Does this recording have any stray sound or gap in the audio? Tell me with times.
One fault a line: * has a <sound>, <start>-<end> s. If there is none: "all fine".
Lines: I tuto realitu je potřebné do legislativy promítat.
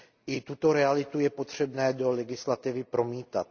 all fine